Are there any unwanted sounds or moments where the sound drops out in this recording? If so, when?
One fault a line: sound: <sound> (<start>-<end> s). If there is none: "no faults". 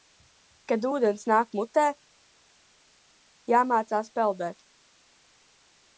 no faults